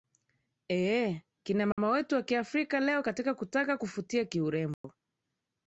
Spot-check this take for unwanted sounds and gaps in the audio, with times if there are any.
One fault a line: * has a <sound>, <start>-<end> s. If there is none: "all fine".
* has a dropout, 1.7-1.8 s
* has a dropout, 4.7-4.8 s